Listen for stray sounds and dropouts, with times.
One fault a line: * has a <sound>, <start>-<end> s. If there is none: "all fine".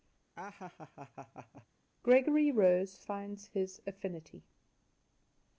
* has a laugh, 0.4-1.7 s